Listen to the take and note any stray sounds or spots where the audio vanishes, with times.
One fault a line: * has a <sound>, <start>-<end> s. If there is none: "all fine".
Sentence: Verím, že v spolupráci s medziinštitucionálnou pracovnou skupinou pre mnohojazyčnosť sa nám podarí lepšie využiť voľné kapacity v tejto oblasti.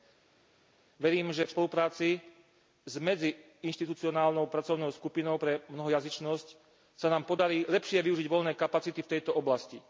all fine